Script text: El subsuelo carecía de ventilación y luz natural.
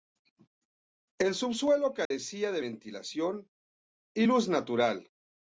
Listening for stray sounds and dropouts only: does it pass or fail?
fail